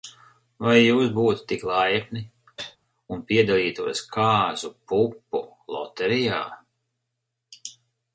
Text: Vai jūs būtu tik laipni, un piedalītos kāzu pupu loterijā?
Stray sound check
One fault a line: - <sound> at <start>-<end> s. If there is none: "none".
- cough at 2.6-2.8 s